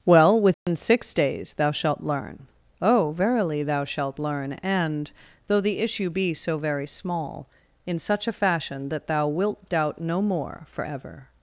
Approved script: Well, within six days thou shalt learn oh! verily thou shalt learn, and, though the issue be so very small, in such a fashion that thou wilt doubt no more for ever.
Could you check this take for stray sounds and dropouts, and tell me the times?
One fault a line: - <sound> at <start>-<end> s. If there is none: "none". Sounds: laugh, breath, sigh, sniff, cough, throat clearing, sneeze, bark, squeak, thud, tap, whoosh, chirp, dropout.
- dropout at 0.5-0.7 s